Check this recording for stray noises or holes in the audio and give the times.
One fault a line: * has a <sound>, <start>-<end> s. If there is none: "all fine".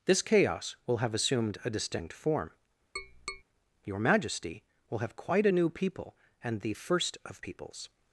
* has a tap, 3.0-3.4 s